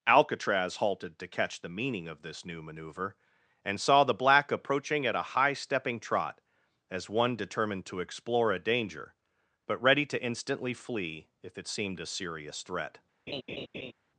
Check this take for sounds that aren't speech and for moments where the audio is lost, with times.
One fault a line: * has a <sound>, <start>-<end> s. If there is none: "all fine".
* has a laugh, 13.3-13.9 s